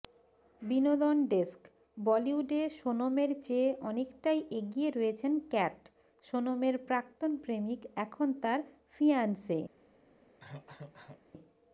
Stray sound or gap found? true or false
true